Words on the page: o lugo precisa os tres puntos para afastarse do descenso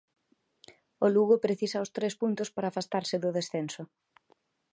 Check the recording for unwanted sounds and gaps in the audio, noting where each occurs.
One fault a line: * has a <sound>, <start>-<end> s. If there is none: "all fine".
all fine